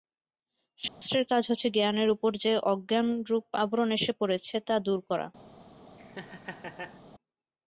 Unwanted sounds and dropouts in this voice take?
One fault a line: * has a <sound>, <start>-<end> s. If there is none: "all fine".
* has a dropout, 0.9-1.0 s
* has a laugh, 6.0-7.0 s